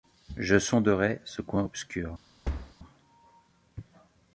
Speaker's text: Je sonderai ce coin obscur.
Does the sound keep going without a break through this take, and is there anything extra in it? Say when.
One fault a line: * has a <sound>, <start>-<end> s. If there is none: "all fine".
* has a thud, 2.4-2.7 s